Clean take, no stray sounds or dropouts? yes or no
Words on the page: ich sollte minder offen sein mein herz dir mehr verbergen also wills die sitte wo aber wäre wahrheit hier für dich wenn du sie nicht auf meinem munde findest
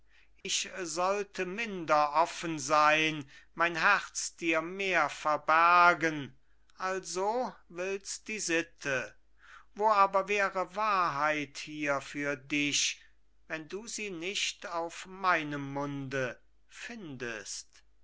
no